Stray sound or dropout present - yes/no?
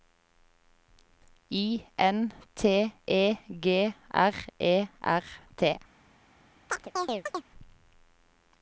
yes